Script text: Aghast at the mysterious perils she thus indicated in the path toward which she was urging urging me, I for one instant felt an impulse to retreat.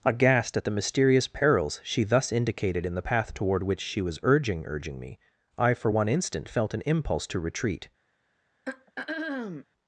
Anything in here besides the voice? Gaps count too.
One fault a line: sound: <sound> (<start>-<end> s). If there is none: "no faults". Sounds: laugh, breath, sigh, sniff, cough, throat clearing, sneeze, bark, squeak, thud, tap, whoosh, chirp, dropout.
sound: throat clearing (8.7-9.7 s)